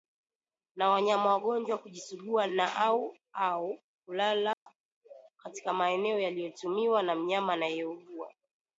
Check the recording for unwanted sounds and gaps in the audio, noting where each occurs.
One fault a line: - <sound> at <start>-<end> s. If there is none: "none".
- dropout at 4.5-4.7 s